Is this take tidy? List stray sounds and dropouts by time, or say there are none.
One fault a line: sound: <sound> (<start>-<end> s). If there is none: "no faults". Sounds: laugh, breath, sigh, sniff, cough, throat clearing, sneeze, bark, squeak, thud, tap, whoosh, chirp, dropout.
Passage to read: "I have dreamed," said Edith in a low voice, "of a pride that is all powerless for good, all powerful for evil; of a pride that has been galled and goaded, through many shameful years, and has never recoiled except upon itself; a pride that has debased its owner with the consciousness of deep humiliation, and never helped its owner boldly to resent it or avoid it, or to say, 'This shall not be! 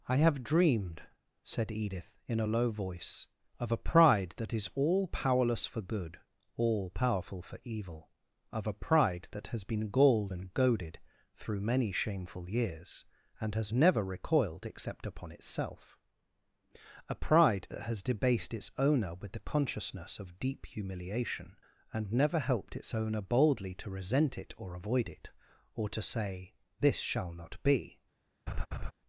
sound: laugh (28.5-28.9 s)